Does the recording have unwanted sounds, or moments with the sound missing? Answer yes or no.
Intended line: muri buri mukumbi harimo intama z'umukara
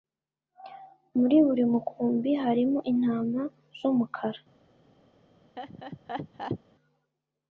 yes